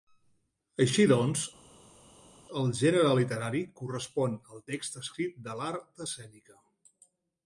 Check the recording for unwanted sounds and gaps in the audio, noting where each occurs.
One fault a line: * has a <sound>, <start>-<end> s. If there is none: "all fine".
all fine